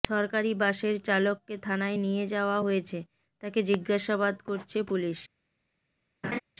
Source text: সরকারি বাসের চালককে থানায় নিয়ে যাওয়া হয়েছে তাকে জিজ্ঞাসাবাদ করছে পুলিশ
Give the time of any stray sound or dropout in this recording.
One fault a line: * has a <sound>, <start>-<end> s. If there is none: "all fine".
* has a laugh, 6.2-6.4 s